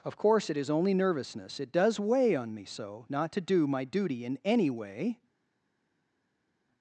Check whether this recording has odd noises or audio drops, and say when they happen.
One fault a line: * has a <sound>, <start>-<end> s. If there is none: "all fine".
all fine